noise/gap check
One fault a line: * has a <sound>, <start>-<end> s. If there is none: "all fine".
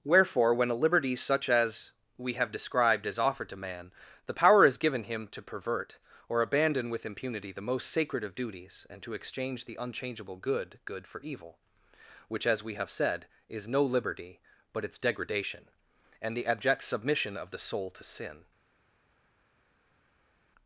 all fine